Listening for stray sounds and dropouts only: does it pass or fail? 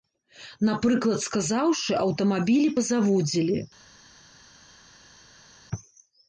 pass